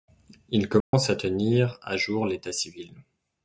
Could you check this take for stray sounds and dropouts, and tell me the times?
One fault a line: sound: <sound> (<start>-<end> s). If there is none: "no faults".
sound: dropout (0.8-0.9 s)